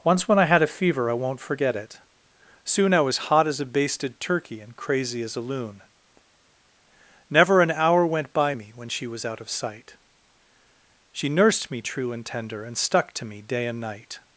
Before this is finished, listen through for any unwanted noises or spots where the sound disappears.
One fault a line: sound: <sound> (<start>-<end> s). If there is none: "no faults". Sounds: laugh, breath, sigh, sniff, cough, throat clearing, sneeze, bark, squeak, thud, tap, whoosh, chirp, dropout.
no faults